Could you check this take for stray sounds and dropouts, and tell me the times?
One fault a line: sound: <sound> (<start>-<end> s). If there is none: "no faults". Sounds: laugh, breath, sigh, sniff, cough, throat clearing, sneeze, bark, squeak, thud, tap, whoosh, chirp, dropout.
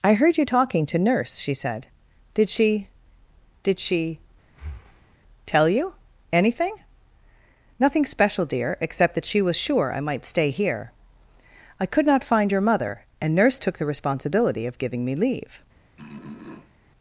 sound: breath (4.5-5.2 s)
sound: throat clearing (16.0-16.7 s)